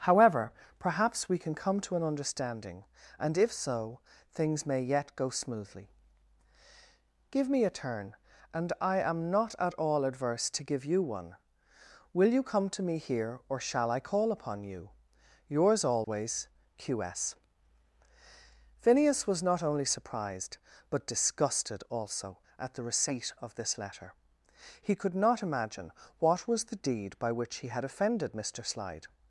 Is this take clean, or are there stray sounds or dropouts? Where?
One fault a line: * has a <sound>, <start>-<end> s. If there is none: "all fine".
* has a dropout, 16.0-16.1 s